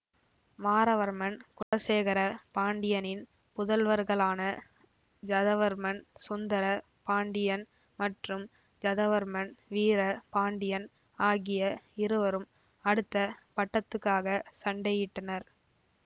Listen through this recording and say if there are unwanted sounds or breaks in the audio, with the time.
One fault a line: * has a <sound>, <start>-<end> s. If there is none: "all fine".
* has a dropout, 1.6-1.7 s